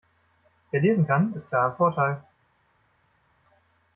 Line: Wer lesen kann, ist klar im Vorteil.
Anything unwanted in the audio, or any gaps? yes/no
no